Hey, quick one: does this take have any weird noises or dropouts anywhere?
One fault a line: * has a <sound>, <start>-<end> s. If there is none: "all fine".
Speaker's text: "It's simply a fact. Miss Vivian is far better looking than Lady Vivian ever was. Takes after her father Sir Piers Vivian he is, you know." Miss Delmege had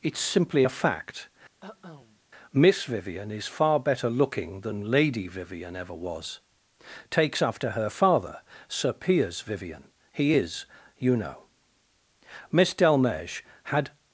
* has a cough, 1.6-2.2 s